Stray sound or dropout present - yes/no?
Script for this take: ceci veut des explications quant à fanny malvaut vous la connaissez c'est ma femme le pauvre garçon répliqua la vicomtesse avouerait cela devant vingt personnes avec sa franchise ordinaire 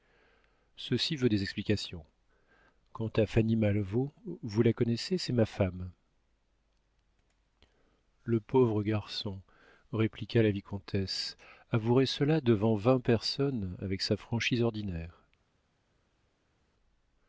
no